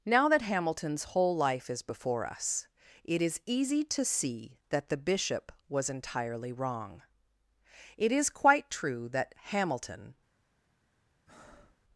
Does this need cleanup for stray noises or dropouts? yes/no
yes